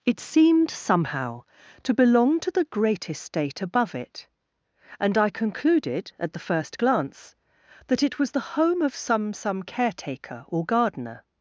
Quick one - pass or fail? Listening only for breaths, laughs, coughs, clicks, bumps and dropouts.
pass